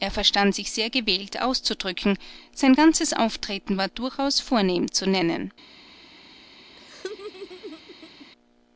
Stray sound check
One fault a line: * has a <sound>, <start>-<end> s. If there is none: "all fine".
* has a laugh, 6.8-8.3 s